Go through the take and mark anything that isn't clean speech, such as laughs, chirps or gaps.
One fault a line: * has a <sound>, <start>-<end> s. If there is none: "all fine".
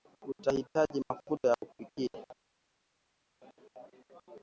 all fine